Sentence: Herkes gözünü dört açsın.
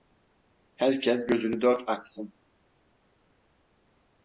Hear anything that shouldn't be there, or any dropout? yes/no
no